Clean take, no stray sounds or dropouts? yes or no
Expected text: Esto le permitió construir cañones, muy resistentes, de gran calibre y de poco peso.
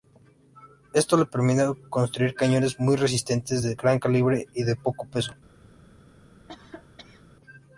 no